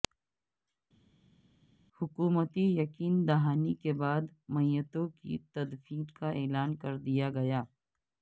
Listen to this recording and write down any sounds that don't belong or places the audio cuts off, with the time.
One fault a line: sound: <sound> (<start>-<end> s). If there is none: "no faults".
no faults